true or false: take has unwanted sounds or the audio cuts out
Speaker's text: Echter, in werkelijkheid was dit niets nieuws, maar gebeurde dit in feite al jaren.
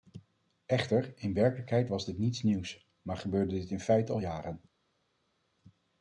false